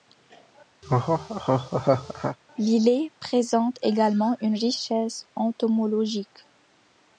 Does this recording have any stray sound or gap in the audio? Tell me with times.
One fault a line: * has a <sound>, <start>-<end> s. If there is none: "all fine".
* has a laugh, 0.8-2.4 s